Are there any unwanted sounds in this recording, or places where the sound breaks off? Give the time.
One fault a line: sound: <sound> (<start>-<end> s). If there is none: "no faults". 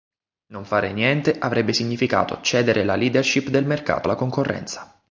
no faults